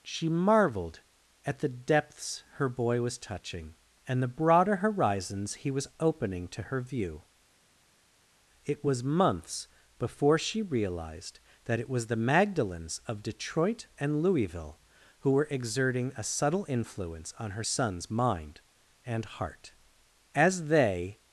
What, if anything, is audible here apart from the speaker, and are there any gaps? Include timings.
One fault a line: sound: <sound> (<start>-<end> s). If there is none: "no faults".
no faults